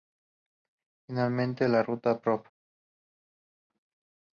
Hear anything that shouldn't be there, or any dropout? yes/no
no